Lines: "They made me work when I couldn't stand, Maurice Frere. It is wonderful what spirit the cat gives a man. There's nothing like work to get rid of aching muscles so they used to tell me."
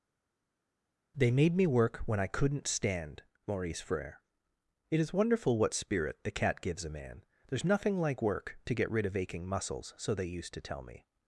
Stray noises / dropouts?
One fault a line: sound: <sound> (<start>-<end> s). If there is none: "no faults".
no faults